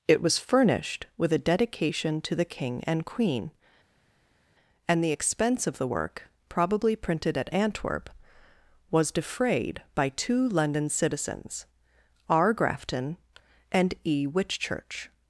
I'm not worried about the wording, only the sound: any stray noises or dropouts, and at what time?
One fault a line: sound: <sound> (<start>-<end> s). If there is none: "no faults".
no faults